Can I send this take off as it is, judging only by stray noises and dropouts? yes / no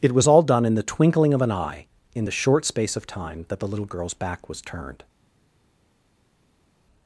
yes